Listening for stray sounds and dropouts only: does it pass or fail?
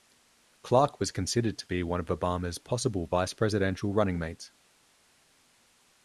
pass